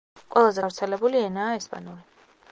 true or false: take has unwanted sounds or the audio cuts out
false